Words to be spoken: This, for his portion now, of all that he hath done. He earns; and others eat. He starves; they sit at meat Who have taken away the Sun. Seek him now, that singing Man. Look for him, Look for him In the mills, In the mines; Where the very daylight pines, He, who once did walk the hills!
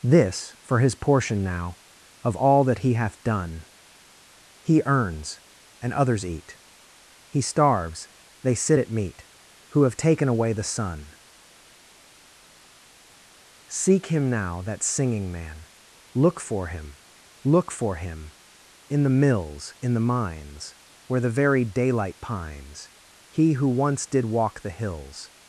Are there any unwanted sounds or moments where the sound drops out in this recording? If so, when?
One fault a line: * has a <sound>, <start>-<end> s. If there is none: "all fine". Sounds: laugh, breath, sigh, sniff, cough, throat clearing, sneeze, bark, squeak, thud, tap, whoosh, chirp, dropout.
all fine